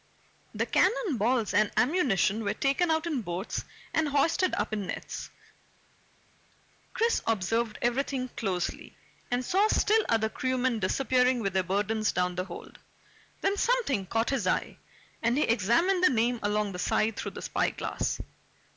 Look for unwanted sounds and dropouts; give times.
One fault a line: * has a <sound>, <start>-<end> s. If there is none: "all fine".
all fine